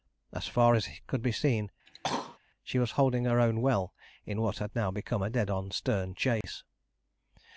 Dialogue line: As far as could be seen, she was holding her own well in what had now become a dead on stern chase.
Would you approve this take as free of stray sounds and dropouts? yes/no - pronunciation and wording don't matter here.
no